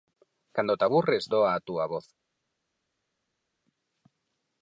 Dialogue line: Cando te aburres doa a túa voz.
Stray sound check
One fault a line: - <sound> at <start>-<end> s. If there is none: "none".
none